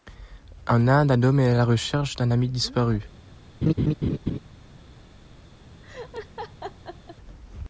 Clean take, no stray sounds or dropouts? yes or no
no